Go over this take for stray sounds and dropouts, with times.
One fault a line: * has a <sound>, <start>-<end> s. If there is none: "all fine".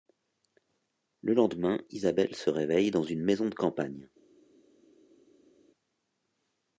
all fine